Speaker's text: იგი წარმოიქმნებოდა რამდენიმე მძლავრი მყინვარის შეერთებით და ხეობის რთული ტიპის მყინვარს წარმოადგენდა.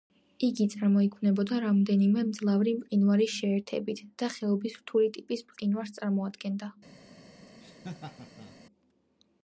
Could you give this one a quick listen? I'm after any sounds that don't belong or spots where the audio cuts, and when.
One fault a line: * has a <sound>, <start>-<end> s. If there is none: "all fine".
* has a laugh, 7.6-8.6 s